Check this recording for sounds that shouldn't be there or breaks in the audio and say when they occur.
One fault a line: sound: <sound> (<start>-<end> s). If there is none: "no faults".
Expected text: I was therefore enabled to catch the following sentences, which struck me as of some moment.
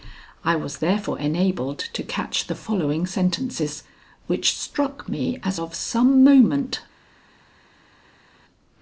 no faults